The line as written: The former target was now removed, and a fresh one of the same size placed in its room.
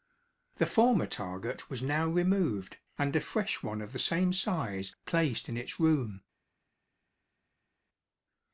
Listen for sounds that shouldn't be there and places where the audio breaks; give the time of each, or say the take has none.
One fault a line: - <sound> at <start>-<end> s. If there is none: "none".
none